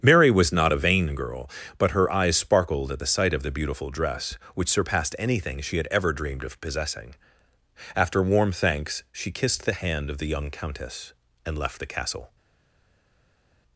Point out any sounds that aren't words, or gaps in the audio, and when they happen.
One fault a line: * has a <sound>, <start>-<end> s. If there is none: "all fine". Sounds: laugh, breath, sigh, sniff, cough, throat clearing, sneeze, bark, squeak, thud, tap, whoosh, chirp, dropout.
all fine